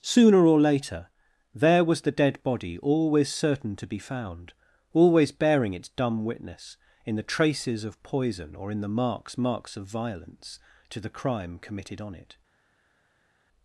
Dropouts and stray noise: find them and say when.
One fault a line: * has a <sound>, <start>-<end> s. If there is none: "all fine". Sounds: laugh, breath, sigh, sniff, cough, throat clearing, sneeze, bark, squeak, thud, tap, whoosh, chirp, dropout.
all fine